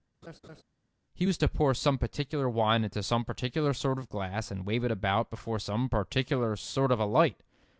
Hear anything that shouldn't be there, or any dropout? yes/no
yes